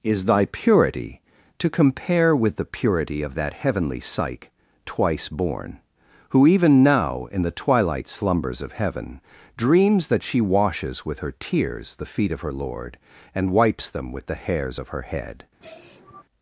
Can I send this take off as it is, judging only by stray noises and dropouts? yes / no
no